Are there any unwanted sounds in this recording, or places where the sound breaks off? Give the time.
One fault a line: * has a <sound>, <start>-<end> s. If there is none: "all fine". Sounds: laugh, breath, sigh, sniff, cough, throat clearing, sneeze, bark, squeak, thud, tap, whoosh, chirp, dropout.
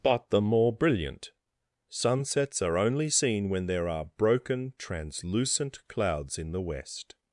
all fine